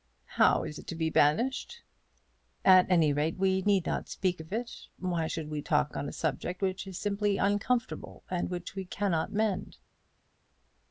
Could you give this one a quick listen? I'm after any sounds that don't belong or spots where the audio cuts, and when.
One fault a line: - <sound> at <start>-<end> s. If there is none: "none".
none